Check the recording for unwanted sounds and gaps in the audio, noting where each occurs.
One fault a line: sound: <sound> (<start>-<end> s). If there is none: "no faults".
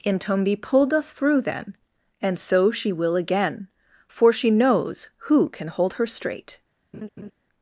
sound: laugh (6.9-7.3 s)